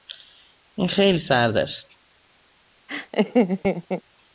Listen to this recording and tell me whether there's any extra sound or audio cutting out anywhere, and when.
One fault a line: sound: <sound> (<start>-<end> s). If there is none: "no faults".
sound: laugh (2.9-4.0 s)